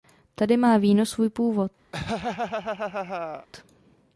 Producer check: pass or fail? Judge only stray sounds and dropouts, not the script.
fail